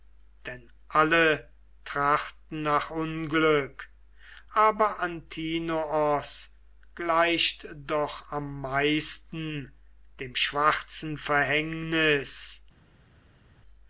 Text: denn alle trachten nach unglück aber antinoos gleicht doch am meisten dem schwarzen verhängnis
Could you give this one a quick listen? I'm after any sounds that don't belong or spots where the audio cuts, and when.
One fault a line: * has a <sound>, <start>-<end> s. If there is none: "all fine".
all fine